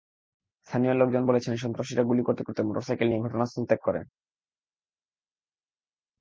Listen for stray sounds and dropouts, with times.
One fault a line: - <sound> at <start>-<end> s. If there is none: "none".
none